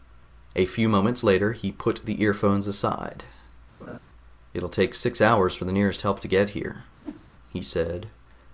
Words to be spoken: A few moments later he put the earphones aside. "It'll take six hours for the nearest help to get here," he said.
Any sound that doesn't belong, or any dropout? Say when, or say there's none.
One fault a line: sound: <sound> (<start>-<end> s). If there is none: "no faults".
sound: laugh (3.8-4.0 s)
sound: whoosh (7.0-7.3 s)